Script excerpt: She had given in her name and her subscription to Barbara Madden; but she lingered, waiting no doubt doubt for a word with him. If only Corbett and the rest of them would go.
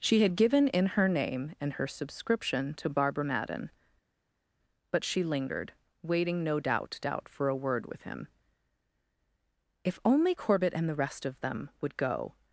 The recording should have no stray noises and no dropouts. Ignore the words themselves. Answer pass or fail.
pass